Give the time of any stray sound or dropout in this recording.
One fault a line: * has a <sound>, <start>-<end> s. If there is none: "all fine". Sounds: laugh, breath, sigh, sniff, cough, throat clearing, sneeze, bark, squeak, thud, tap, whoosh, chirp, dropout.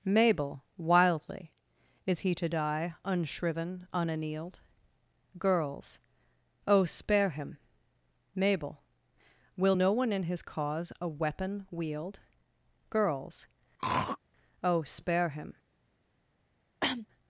* has a throat clearing, 13.8-14.2 s
* has a cough, 16.8-17.1 s